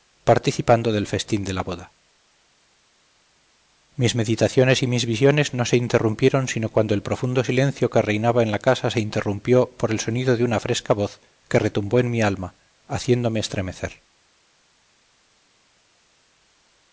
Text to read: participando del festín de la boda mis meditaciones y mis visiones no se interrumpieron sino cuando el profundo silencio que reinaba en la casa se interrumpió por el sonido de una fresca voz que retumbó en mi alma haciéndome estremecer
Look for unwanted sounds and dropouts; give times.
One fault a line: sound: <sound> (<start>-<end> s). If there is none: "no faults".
no faults